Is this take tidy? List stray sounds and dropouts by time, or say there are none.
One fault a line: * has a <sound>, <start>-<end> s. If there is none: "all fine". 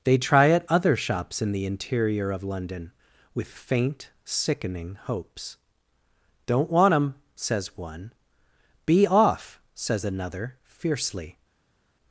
all fine